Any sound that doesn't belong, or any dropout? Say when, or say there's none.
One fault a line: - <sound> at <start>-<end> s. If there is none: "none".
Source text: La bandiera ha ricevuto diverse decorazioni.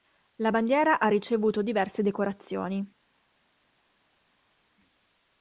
none